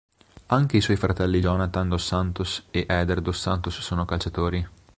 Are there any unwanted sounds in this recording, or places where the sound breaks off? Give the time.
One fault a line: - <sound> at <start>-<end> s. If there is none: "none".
none